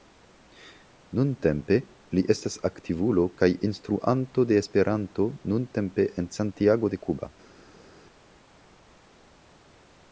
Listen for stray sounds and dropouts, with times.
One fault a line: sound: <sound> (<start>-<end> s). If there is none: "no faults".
no faults